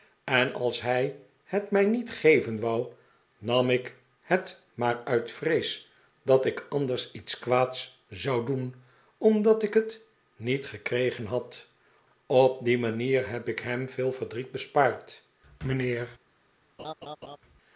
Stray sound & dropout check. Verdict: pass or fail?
fail